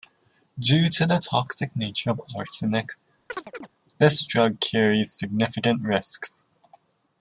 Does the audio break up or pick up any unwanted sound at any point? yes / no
yes